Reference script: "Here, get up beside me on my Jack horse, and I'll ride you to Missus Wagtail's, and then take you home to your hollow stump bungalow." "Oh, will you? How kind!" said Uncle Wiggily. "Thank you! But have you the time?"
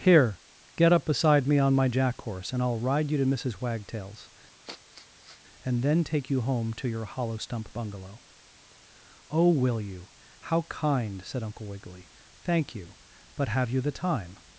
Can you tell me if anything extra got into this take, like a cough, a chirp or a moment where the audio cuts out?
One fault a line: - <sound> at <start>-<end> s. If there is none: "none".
- sniff at 4.6-5.4 s